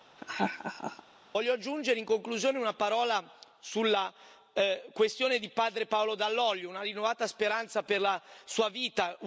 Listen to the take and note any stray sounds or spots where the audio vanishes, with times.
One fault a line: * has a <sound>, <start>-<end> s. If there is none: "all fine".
* has a laugh, 0.2-1.0 s